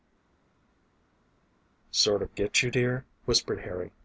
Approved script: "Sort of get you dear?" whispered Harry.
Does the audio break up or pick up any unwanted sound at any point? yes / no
no